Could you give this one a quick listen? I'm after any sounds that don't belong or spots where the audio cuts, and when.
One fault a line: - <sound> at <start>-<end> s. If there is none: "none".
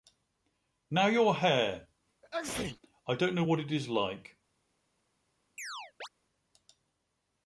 - sneeze at 2.2-2.8 s
- chirp at 5.6-6.1 s